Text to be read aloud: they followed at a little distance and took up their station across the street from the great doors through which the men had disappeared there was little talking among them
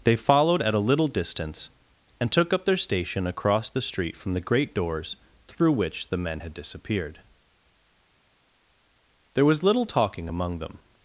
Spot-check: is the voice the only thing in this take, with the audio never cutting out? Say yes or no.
yes